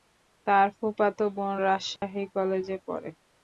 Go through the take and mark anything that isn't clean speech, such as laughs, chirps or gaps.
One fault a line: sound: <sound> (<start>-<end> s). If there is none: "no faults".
sound: dropout (2.0-2.0 s)